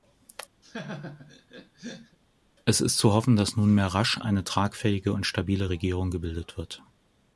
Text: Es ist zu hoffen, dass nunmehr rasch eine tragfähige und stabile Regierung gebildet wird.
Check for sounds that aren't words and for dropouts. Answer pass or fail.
fail